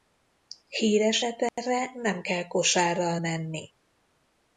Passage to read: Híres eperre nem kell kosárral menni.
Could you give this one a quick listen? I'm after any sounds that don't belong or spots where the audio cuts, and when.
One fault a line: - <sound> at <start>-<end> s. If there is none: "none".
- dropout at 1.5-1.6 s